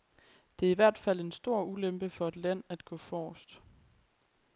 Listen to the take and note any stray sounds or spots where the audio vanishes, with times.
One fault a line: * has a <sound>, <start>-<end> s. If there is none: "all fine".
all fine